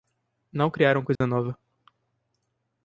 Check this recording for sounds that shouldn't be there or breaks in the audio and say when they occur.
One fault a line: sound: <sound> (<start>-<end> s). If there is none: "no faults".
sound: dropout (1.2-1.2 s)